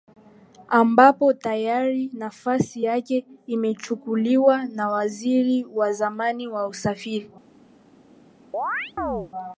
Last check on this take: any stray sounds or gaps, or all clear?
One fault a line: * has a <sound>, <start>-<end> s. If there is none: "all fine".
* has a chirp, 8.5-9.3 s